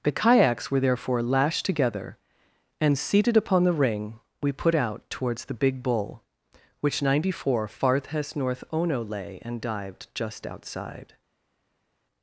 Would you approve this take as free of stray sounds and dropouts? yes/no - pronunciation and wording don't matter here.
yes